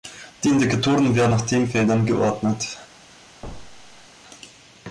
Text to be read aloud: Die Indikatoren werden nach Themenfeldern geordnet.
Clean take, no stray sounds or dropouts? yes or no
no